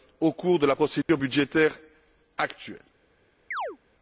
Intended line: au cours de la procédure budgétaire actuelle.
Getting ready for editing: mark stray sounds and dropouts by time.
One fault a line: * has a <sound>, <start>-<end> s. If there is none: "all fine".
* has a dropout, 1.0-1.1 s
* has a chirp, 3.5-3.8 s